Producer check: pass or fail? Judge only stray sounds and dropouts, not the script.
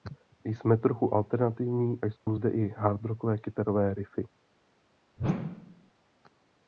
fail